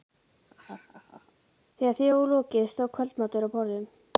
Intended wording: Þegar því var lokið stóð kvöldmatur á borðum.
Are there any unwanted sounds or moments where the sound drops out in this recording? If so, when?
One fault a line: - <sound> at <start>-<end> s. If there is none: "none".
- laugh at 0.5-1.3 s